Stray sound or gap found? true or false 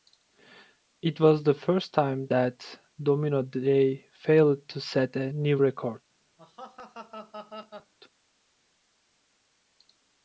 true